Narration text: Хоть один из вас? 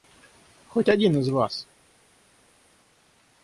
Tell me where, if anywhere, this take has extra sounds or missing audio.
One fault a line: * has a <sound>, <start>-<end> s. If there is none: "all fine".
all fine